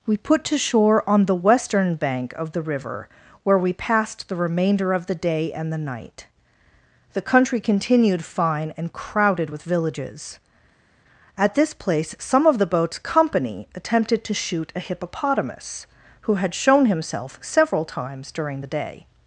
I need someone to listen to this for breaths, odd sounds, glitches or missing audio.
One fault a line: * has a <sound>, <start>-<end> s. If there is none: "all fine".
all fine